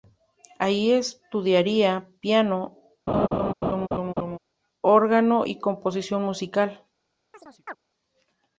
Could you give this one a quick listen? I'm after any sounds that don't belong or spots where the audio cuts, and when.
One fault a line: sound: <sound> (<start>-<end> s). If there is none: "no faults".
sound: laugh (3.1-4.4 s)
sound: chirp (7.3-7.8 s)